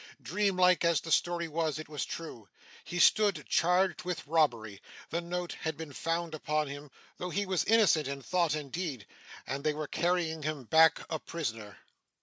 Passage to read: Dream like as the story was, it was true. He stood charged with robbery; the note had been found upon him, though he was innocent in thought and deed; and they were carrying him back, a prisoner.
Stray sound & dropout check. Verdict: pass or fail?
pass